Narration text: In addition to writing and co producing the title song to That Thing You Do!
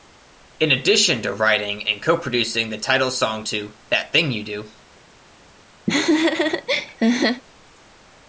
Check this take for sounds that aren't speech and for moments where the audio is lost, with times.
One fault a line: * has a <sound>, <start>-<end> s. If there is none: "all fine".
* has a laugh, 5.9-7.4 s